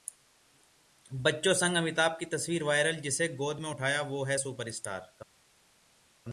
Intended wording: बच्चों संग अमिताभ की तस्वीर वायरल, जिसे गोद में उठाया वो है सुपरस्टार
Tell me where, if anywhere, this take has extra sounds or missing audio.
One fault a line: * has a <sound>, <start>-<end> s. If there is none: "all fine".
all fine